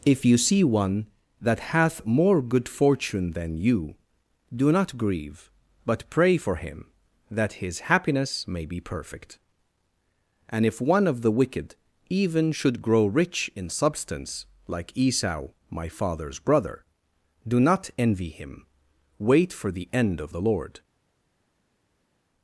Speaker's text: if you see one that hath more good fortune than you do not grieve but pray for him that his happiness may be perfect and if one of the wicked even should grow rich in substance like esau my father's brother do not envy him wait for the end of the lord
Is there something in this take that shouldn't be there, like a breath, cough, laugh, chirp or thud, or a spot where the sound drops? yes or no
no